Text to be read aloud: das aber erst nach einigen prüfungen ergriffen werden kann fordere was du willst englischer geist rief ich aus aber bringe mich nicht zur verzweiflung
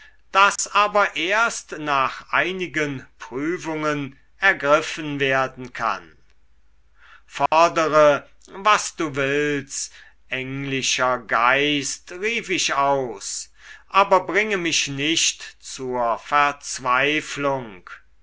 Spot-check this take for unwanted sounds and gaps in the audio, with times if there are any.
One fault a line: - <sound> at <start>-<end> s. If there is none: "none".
- dropout at 0.6-0.6 s
- dropout at 7.5-7.5 s